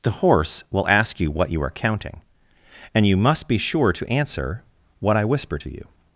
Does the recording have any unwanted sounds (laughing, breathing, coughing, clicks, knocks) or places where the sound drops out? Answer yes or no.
no